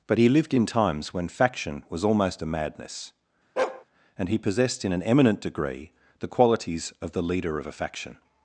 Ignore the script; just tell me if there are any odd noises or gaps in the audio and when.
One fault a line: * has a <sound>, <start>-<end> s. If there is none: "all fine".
* has a bark, 3.6-3.8 s